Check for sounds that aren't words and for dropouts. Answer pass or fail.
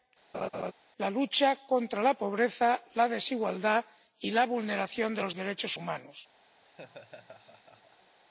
fail